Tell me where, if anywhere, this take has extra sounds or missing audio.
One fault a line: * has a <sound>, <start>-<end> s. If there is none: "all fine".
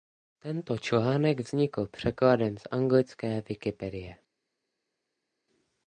all fine